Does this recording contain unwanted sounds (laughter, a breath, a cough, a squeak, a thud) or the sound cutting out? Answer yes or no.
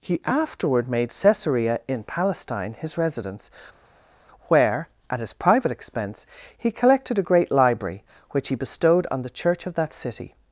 no